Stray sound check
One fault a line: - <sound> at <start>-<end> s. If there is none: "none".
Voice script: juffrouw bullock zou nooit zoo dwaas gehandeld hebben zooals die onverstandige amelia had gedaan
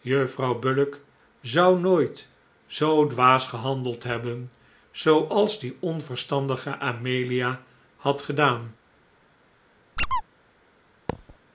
- squeak at 10.0-10.2 s
- thud at 11.1-11.4 s